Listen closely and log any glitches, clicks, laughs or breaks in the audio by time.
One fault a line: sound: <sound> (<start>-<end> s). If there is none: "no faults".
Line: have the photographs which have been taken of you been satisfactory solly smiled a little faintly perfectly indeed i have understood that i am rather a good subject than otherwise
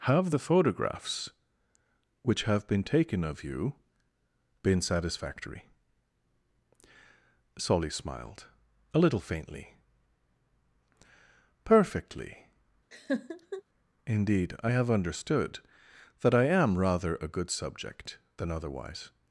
sound: laugh (12.9-13.6 s)